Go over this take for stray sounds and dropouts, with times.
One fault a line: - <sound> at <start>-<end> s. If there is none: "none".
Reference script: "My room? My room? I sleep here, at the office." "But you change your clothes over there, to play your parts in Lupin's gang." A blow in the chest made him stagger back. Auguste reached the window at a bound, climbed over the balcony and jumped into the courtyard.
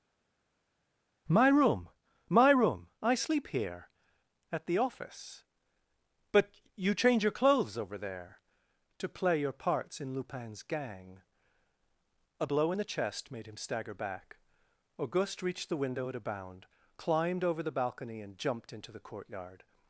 none